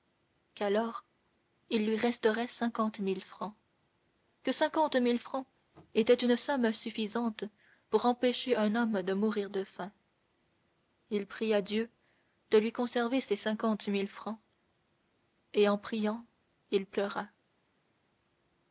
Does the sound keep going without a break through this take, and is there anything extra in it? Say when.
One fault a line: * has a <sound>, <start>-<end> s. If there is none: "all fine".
all fine